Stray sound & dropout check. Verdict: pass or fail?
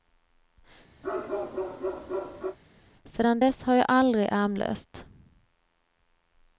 fail